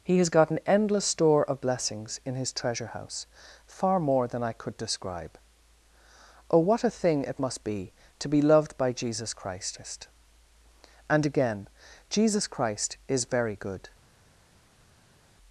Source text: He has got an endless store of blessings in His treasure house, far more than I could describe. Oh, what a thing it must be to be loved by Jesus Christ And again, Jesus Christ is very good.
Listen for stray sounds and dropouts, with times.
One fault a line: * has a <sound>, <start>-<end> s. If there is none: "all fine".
all fine